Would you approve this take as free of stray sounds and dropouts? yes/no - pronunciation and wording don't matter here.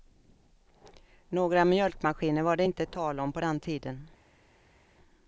yes